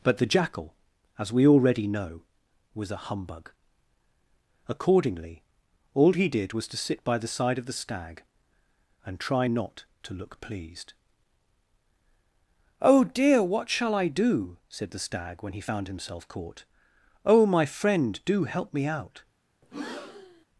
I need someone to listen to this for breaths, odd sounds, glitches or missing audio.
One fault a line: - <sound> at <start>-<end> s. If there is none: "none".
- breath at 19.6-20.5 s